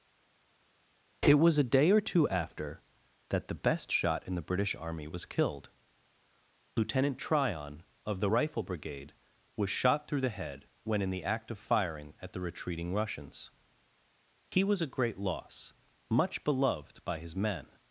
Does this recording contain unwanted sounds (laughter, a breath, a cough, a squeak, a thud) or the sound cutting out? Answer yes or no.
no